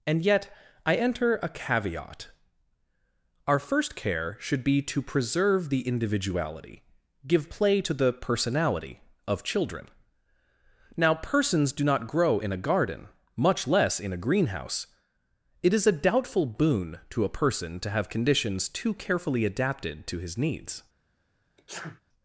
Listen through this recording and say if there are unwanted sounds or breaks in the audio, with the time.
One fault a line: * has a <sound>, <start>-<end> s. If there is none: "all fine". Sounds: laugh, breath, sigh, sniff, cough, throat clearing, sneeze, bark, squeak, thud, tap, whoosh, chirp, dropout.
* has a sneeze, 21.6-22.0 s